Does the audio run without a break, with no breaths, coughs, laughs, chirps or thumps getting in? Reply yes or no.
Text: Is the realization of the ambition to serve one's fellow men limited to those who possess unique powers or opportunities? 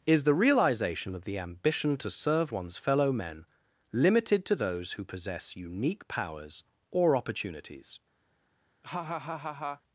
no